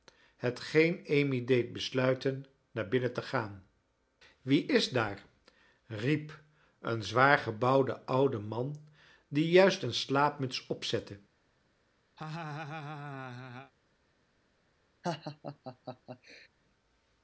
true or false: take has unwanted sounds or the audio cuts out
true